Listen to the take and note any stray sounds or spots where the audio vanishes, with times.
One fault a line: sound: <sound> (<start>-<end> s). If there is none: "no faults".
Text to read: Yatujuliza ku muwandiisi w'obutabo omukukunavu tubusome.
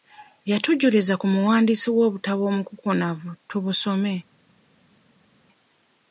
no faults